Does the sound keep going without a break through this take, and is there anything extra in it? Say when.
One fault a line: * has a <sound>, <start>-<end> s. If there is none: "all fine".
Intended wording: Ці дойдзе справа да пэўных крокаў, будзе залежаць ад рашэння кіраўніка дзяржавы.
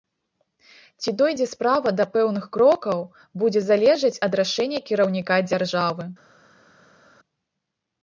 all fine